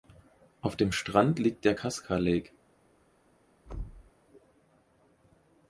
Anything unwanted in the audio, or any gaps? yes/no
yes